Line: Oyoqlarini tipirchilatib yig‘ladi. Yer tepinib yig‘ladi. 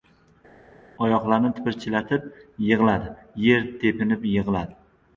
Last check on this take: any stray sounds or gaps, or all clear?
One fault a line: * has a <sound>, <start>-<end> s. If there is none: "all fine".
all fine